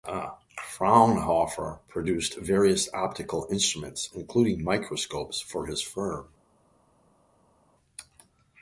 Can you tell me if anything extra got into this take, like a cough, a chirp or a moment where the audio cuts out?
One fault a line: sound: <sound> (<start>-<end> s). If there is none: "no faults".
no faults